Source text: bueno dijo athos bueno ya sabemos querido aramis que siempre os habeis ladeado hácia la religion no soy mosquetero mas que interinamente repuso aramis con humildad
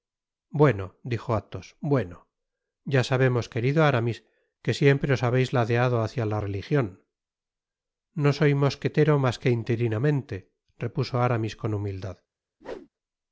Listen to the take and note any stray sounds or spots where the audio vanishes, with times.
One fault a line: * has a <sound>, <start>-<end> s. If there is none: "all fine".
* has a whoosh, 12.6-12.9 s